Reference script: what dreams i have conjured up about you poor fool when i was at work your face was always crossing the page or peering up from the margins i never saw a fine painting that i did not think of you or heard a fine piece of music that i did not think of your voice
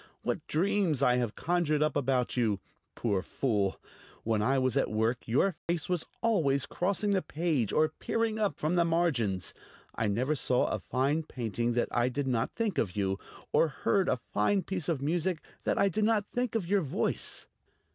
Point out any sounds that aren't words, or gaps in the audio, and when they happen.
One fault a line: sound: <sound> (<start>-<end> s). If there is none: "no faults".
sound: dropout (5.6-5.7 s)